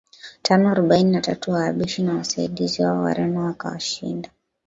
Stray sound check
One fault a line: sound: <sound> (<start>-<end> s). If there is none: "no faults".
no faults